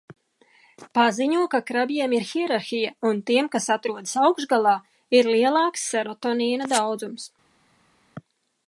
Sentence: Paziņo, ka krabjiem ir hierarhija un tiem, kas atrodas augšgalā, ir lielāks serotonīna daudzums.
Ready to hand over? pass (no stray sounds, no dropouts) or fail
pass